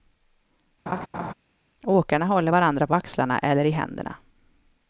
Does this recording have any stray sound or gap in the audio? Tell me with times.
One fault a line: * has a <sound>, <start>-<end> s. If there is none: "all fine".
* has a laugh, 0.9-1.3 s